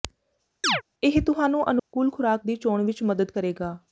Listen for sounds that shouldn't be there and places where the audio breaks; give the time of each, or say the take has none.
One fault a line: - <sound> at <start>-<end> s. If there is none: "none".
- chirp at 0.6-0.8 s
- dropout at 1.8-1.9 s